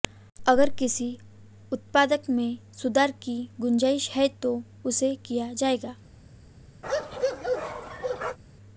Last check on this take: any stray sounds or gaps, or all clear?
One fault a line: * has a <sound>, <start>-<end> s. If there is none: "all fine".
* has a bark, 6.8-8.4 s